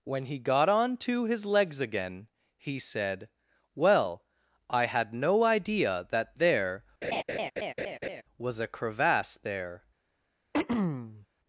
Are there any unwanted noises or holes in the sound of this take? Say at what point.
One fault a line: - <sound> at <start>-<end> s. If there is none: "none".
- laugh at 7.0-8.2 s
- throat clearing at 10.5-11.3 s